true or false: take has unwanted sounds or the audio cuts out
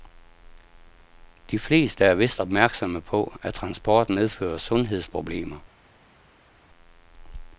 false